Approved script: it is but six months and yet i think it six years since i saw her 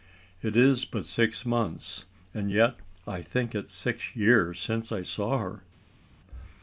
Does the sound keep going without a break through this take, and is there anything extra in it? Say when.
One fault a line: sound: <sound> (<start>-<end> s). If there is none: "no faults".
no faults